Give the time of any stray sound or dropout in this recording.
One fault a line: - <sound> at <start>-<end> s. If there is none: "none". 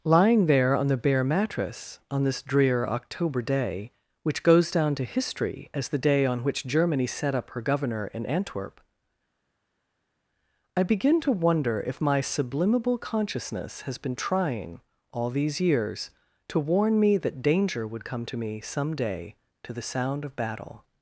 none